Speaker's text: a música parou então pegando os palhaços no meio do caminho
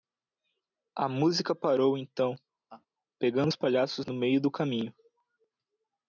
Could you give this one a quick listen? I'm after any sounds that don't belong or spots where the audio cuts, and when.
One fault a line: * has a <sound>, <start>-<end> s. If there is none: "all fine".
* has a laugh, 2.7-2.9 s